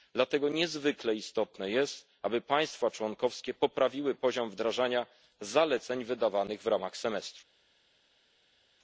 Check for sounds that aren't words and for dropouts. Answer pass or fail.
pass